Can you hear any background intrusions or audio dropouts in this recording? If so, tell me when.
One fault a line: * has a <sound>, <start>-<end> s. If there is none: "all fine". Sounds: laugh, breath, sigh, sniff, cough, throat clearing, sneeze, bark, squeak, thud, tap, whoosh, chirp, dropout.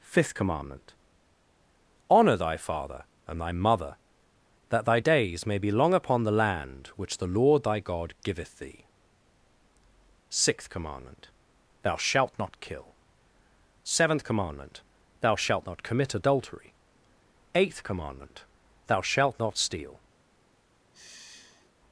* has a sigh, 20.9-21.7 s